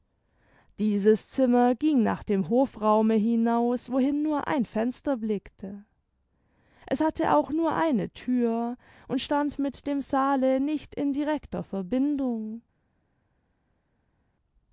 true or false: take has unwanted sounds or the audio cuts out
false